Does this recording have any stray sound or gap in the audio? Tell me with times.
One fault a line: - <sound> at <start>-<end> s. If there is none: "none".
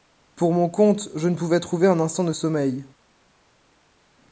none